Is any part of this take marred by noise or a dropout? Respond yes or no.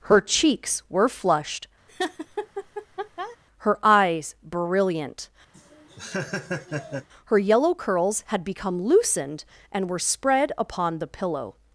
yes